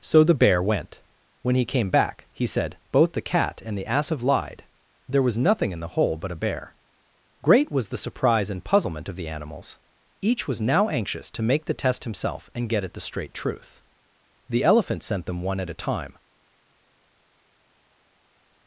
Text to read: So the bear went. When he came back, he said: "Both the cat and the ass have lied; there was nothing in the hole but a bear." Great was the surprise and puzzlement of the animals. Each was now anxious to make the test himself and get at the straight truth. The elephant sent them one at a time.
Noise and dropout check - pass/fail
pass